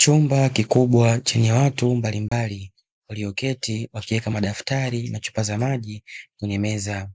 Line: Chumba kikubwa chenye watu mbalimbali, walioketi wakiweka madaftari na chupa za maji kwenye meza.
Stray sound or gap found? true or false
true